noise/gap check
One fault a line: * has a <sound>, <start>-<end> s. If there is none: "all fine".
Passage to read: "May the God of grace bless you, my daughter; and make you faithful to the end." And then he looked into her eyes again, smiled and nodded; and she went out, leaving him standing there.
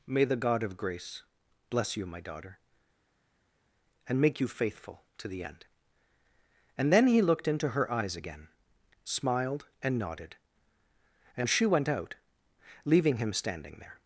all fine